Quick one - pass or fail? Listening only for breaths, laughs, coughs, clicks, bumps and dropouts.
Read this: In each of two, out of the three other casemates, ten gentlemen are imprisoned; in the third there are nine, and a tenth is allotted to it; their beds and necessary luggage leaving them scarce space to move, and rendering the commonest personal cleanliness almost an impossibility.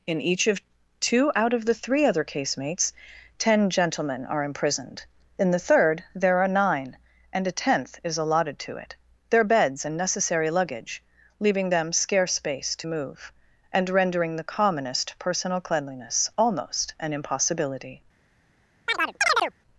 fail